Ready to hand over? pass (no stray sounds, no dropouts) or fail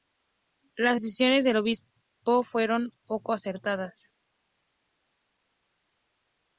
pass